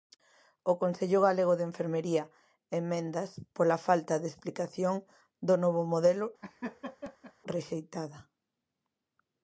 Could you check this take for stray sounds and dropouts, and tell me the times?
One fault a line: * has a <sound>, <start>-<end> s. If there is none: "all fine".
* has a laugh, 6.4-7.3 s